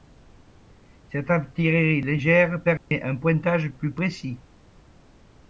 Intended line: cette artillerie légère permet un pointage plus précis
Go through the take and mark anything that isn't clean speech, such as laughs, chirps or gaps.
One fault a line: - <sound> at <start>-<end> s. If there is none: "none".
- dropout at 2.8-2.9 s